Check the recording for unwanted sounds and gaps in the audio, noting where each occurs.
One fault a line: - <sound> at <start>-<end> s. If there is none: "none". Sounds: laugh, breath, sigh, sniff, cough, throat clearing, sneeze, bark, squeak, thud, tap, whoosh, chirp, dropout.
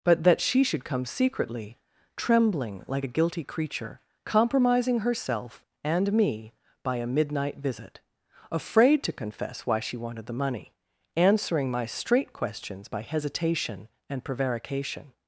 none